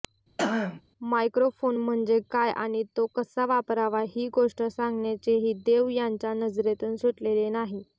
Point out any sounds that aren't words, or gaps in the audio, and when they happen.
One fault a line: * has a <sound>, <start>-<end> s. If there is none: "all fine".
* has a throat clearing, 0.4-0.8 s